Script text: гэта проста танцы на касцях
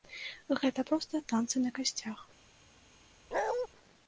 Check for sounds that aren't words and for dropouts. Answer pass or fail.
fail